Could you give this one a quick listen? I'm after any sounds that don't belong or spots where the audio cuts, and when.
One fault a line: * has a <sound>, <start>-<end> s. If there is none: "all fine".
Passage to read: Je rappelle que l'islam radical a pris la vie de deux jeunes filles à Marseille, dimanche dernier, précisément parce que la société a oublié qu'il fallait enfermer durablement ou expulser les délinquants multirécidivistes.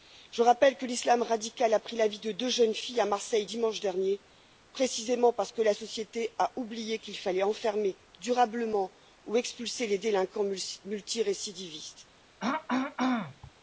* has a throat clearing, 12.4-13.5 s